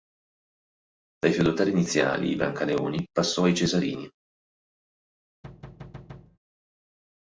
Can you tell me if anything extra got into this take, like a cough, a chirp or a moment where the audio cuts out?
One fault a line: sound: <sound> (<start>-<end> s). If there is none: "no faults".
sound: thud (5.4-6.4 s)